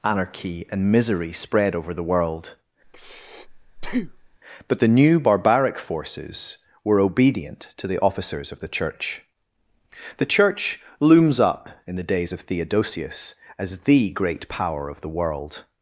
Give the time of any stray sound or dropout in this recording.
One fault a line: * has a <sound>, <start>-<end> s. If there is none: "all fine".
* has a breath, 2.8-4.4 s